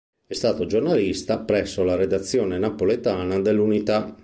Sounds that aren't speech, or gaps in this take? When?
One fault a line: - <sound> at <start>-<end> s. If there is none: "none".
none